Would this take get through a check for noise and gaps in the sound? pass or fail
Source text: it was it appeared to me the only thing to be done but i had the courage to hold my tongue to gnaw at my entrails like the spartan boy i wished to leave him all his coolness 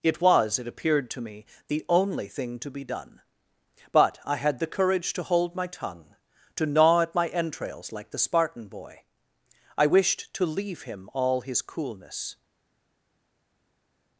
pass